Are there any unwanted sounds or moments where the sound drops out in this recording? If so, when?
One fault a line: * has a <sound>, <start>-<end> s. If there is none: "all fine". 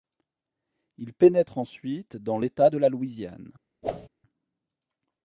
* has a whoosh, 3.8-4.1 s